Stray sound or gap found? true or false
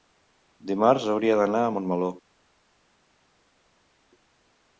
false